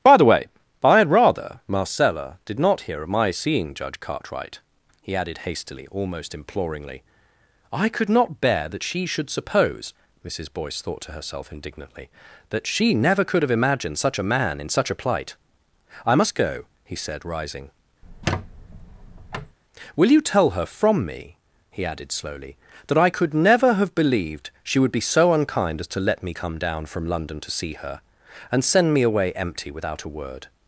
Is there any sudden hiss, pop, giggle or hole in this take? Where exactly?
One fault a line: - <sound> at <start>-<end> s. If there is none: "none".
- squeak at 18.0-19.6 s